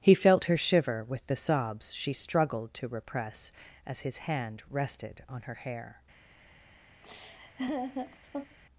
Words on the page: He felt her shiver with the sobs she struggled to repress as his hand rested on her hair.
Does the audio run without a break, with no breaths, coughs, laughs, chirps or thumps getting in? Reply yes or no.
no